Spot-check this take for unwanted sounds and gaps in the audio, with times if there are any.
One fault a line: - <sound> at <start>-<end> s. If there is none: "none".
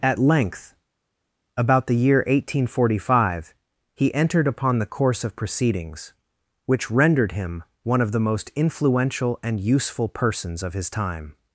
none